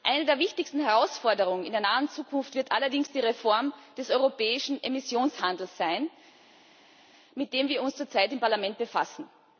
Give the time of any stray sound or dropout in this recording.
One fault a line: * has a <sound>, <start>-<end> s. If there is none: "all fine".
all fine